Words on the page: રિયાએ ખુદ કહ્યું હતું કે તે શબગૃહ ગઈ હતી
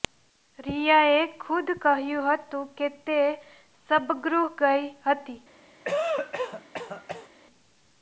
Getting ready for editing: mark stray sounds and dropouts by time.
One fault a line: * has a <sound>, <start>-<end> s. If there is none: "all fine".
* has a cough, 5.8-7.3 s